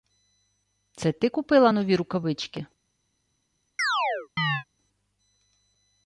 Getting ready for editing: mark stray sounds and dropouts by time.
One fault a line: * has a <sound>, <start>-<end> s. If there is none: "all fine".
* has a chirp, 3.8-4.6 s